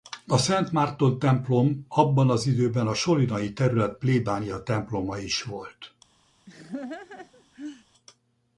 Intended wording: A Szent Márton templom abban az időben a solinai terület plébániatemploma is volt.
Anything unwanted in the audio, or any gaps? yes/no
yes